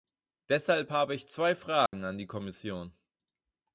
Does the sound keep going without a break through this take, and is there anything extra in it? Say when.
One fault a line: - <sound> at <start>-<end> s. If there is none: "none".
- dropout at 1.9-1.9 s